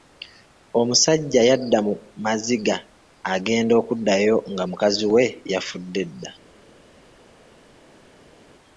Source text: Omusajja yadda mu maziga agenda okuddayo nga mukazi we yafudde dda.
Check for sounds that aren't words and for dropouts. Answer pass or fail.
pass